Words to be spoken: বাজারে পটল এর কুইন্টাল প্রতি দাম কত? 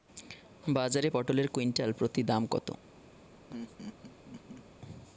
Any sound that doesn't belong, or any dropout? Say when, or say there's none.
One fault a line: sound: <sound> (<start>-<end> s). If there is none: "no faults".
sound: laugh (3.5-4.6 s)